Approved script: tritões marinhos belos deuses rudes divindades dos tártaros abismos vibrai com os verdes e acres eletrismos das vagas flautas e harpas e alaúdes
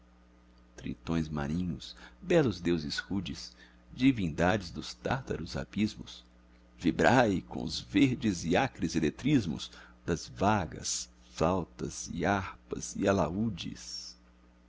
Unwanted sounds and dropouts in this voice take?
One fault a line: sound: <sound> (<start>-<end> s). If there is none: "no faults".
no faults